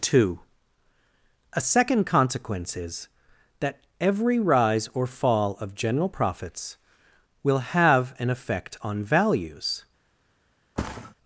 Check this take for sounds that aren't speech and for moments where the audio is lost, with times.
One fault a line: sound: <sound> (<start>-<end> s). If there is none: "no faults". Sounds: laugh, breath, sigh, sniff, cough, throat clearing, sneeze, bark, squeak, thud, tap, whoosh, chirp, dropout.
sound: thud (10.8-11.1 s)